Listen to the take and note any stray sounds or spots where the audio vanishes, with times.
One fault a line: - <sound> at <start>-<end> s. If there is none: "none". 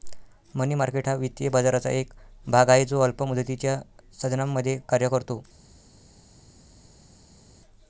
none